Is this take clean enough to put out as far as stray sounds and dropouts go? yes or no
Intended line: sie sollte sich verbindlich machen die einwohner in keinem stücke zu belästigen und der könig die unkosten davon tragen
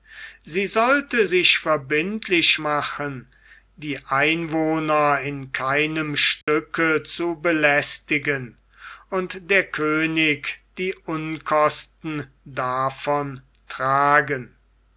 no